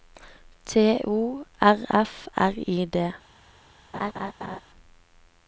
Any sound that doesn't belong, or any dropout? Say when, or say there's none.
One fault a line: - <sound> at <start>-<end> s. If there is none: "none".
- laugh at 3.9-4.6 s